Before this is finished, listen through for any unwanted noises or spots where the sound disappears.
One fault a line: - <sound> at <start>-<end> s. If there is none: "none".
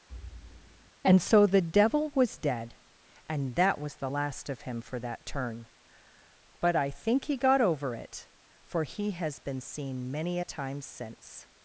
- thud at 0.1-0.9 s